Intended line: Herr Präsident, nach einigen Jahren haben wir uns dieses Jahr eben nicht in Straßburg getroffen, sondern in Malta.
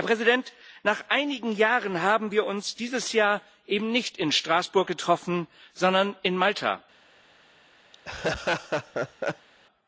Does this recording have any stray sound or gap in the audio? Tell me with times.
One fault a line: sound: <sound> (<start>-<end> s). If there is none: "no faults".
sound: laugh (7.9-9.5 s)